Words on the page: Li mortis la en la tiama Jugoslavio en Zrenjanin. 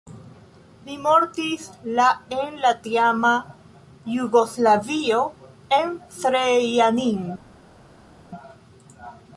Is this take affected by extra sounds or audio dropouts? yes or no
no